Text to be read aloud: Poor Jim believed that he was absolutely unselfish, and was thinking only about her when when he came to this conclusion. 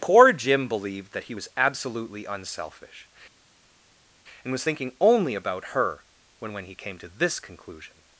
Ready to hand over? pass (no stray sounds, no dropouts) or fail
pass